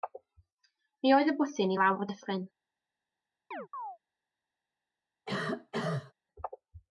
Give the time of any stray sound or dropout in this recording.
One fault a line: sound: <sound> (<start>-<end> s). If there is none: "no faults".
sound: chirp (3.5-4.0 s)
sound: cough (5.3-6.1 s)